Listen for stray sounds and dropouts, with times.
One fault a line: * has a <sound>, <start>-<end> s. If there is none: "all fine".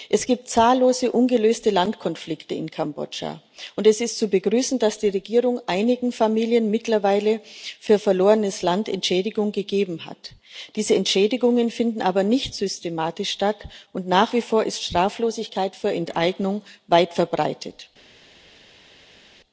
all fine